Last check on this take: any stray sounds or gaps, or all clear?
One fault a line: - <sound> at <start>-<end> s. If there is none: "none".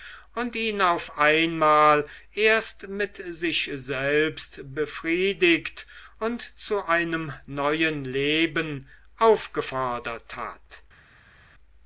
none